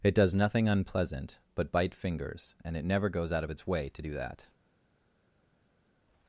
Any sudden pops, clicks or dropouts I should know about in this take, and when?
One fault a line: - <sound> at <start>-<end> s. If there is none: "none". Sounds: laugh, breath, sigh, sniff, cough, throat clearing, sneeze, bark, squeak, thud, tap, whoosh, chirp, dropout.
none